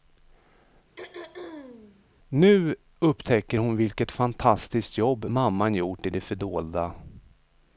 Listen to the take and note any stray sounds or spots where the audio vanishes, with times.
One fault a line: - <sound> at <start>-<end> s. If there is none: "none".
- throat clearing at 1.0-2.0 s